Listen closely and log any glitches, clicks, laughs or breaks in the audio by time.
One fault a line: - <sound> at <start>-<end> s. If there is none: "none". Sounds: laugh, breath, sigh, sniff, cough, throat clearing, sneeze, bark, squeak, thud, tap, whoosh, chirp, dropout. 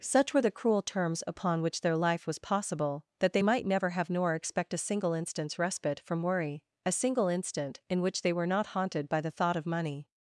none